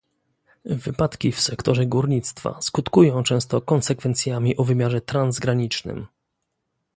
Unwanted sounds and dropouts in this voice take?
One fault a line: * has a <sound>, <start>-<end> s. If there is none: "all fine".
all fine